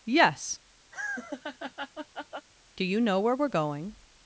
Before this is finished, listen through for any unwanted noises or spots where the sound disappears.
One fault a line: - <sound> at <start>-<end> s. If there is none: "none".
- laugh at 0.9-2.5 s